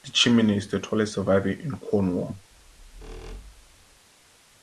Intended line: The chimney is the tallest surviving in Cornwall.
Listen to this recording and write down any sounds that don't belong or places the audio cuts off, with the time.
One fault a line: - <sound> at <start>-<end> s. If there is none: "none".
- squeak at 2.5-4.0 s